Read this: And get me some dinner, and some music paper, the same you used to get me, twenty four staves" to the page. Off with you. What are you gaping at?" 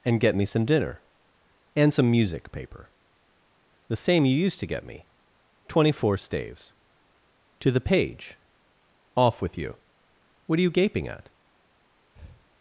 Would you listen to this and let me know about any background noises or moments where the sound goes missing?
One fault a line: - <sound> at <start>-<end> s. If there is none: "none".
- breath at 12.1-12.5 s